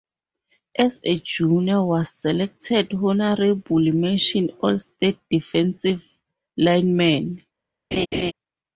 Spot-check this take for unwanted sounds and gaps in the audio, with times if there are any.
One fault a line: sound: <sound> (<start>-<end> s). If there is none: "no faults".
sound: laugh (7.9-8.3 s)